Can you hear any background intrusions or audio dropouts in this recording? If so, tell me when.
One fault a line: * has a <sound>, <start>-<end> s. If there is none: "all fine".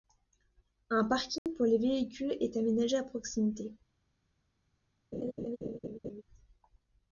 * has a dropout, 1.4-1.5 s
* has a laugh, 5.1-6.2 s